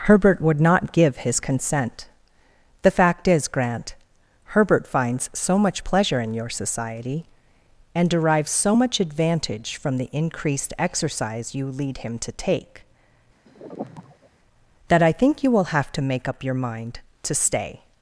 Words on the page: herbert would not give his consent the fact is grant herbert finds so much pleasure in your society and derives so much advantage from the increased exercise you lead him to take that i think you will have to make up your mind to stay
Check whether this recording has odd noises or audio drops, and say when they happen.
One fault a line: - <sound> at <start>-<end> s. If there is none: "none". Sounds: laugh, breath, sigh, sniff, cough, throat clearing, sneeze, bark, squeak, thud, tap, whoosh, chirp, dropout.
- sigh at 13.5-14.3 s